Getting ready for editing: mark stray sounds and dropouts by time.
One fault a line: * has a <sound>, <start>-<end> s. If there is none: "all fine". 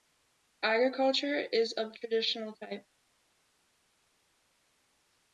all fine